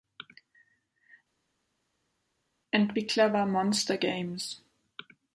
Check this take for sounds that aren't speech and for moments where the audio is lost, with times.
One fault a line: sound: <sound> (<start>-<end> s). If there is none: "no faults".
no faults